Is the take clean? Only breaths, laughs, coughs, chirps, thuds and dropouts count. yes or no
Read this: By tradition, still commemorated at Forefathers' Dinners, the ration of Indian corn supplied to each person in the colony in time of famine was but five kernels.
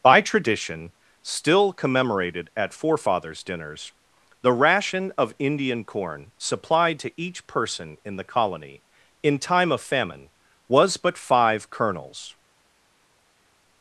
yes